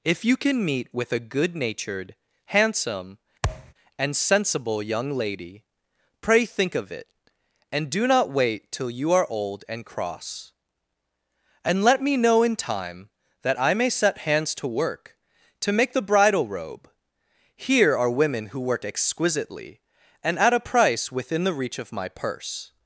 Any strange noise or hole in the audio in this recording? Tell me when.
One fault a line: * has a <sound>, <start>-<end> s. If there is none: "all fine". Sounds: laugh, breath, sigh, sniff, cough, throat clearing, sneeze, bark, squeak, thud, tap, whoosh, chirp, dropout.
* has a thud, 3.4-3.7 s